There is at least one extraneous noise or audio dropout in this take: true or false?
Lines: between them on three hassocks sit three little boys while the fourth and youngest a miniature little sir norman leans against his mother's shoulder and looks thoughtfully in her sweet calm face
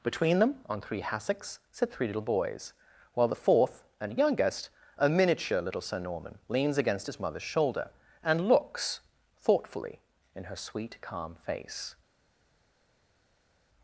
false